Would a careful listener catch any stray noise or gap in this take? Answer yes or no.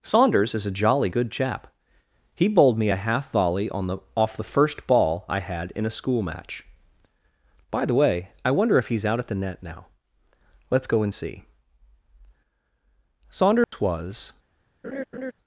yes